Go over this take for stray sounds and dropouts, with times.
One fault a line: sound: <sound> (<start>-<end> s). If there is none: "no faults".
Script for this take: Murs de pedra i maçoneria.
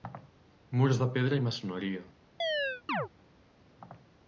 sound: chirp (2.4-3.1 s)